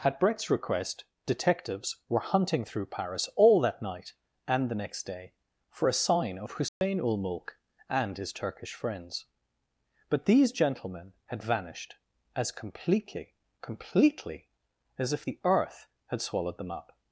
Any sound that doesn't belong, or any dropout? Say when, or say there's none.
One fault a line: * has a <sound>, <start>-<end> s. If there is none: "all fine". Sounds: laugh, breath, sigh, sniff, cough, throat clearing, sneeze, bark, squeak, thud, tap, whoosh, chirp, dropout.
* has a dropout, 6.7-6.8 s